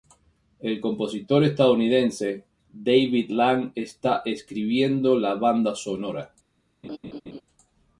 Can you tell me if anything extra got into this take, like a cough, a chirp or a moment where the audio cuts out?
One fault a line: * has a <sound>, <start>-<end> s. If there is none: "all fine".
* has a laugh, 6.8-7.4 s